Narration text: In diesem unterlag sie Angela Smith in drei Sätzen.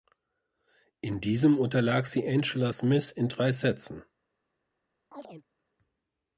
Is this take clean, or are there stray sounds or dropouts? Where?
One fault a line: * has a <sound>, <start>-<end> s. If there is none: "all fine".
* has a chirp, 5.1-5.4 s